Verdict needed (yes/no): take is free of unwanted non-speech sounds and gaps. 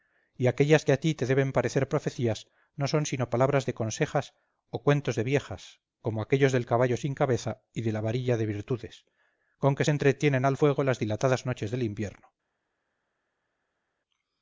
yes